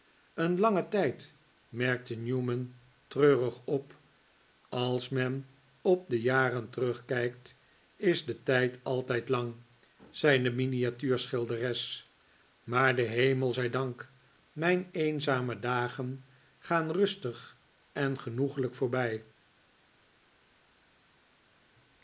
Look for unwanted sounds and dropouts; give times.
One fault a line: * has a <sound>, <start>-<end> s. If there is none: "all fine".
all fine